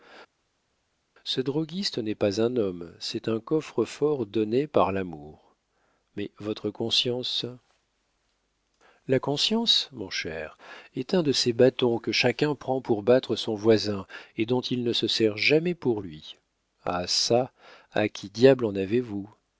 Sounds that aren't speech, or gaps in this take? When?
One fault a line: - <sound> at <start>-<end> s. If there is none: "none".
none